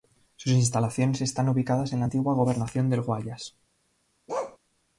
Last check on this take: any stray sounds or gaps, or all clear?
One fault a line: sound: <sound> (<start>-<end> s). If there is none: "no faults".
sound: bark (4.3-4.6 s)